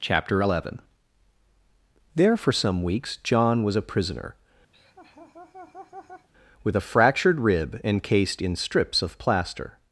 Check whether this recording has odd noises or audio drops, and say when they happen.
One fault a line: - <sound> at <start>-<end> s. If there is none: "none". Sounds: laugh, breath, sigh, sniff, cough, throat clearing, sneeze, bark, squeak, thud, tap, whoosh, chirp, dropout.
- laugh at 4.7-6.3 s